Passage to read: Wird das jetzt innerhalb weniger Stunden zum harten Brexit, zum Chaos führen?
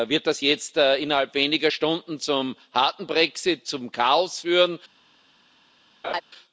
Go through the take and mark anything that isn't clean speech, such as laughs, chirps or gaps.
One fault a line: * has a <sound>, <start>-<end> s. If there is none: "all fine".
* has a laugh, 6.0-6.2 s